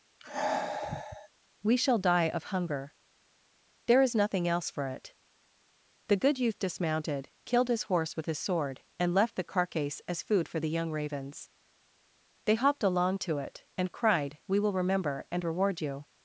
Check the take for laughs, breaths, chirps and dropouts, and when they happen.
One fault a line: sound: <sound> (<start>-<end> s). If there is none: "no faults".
sound: sigh (0.2-1.3 s)